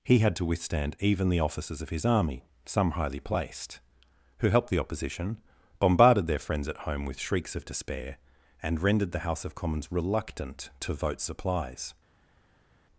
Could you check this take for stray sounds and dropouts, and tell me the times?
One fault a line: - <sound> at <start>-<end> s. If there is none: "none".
none